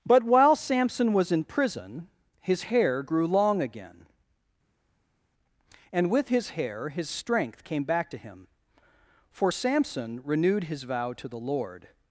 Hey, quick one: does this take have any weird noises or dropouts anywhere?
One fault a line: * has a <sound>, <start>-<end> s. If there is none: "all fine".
all fine